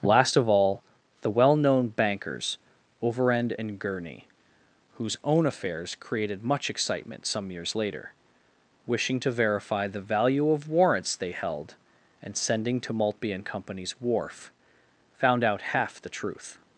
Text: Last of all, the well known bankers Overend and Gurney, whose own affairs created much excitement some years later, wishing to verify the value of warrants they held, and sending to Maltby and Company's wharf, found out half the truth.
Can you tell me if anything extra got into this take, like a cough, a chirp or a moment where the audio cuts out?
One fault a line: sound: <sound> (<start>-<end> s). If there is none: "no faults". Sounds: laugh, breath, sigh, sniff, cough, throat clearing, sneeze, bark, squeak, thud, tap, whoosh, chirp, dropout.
no faults